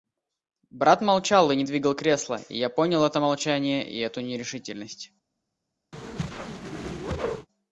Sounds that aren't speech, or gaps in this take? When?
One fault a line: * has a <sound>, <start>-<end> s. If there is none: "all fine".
* has a whoosh, 5.9-7.5 s